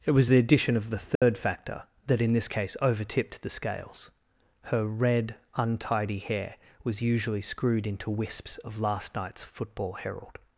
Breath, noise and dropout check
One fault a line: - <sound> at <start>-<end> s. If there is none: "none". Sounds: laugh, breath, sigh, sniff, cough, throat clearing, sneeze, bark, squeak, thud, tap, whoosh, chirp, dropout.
- dropout at 1.2-1.2 s